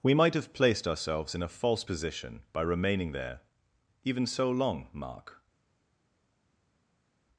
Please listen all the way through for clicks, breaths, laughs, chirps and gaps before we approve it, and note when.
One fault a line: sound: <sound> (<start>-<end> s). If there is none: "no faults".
no faults